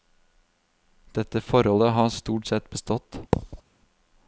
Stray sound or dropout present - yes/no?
yes